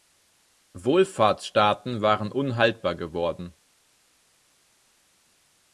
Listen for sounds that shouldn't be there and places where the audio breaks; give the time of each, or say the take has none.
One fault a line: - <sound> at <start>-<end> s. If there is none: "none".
none